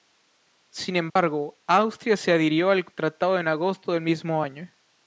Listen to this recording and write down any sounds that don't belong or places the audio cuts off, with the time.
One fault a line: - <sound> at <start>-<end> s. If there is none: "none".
- dropout at 1.1-1.2 s